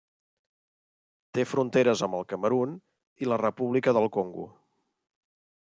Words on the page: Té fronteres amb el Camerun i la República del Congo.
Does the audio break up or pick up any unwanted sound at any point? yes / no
no